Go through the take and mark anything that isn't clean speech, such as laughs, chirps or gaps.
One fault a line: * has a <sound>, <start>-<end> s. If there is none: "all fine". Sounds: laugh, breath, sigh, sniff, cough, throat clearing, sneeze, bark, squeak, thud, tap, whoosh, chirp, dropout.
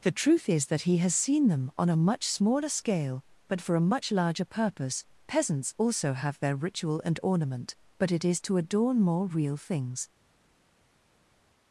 all fine